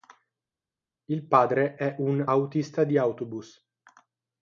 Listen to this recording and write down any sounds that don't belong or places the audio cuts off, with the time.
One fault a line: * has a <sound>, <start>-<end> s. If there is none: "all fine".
all fine